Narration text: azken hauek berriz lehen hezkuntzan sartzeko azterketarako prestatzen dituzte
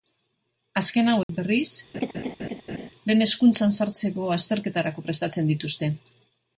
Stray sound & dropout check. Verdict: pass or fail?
fail